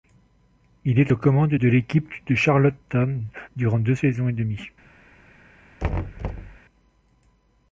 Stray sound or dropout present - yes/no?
yes